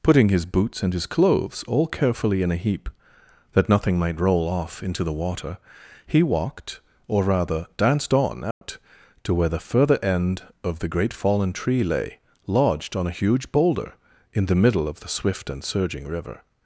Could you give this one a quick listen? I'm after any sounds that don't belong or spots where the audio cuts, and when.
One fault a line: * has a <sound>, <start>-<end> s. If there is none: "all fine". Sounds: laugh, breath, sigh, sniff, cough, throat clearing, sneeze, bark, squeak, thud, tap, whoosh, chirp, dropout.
* has a dropout, 8.5-8.6 s